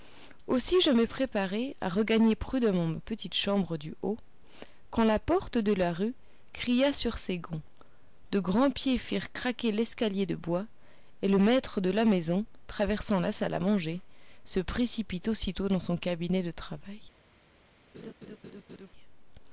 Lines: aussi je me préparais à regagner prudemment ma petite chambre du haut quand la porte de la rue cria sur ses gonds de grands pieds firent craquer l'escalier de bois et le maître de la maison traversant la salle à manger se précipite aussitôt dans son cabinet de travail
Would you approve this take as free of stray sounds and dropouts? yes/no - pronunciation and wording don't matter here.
no